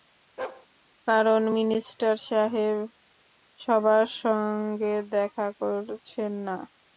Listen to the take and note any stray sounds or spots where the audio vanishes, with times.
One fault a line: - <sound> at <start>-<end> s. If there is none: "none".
- bark at 0.4-0.7 s